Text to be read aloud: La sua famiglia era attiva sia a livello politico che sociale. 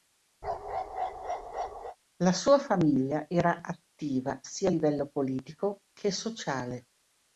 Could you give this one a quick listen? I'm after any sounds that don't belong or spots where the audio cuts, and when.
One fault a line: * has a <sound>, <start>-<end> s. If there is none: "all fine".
* has a bark, 0.4-2.0 s